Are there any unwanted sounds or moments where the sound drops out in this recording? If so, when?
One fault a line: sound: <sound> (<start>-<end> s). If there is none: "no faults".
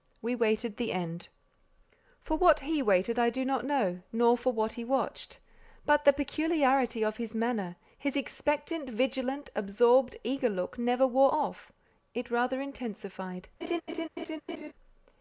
sound: laugh (13.6-14.7 s)